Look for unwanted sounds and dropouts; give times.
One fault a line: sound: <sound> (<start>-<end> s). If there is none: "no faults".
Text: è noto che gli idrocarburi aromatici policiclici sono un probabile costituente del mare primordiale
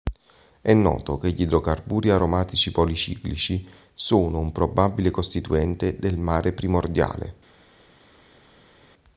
no faults